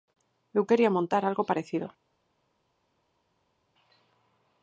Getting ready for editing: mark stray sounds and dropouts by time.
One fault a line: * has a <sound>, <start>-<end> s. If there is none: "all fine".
all fine